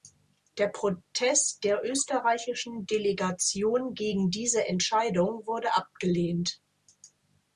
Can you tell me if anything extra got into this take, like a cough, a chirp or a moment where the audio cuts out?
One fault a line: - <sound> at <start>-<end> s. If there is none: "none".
none